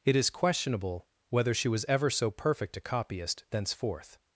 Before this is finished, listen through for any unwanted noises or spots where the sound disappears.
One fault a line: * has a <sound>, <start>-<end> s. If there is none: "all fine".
all fine